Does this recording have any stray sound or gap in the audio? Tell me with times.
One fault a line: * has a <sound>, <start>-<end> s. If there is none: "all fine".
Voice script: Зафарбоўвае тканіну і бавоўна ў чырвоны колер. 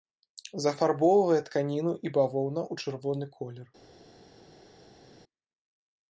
all fine